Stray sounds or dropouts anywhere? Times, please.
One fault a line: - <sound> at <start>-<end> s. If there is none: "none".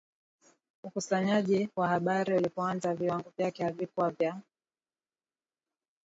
none